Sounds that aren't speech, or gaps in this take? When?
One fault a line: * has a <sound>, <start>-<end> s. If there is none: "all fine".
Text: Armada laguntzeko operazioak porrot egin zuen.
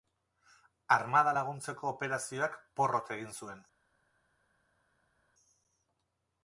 all fine